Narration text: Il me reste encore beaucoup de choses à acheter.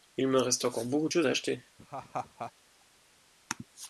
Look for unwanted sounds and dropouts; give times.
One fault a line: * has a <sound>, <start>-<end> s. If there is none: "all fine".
* has a laugh, 1.8-2.5 s